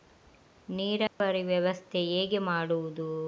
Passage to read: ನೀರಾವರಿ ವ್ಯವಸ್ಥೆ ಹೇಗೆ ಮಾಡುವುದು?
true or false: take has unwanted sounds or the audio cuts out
true